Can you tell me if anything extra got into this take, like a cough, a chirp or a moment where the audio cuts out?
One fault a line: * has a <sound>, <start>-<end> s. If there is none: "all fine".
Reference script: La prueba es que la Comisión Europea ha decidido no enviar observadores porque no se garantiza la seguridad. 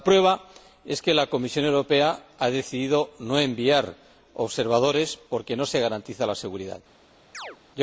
* has a chirp, 7.3-7.6 s